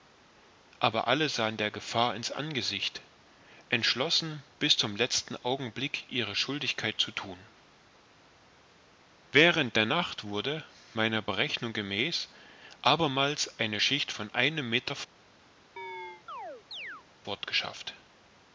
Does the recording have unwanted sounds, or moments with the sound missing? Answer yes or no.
yes